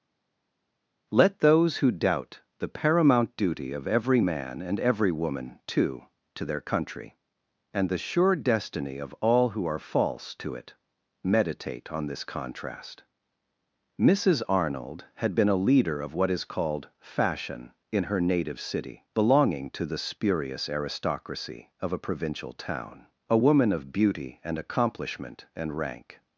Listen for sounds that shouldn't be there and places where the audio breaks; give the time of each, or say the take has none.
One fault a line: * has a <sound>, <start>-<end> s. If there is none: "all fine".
all fine